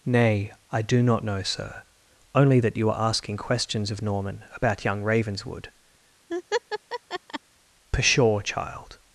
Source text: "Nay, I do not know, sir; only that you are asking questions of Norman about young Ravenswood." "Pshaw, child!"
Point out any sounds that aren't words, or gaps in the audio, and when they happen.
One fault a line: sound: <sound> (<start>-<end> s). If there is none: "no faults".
sound: laugh (6.3-7.4 s)